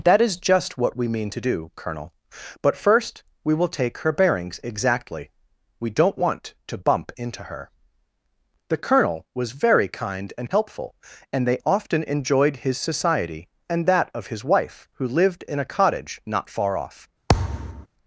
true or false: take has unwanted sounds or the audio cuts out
true